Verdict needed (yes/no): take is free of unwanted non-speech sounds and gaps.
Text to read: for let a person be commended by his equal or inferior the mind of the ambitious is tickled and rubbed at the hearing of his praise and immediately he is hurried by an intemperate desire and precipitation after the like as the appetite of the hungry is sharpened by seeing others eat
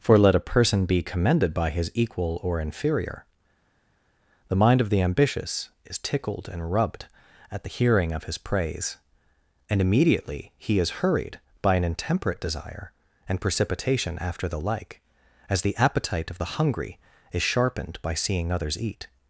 yes